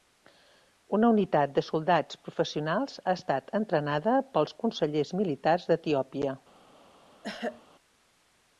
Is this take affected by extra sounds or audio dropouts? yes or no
yes